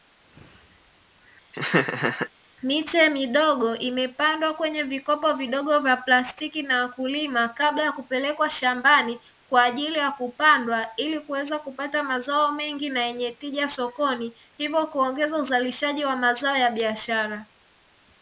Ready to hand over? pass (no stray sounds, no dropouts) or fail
fail